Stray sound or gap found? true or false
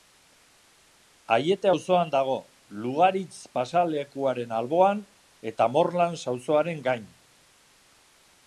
false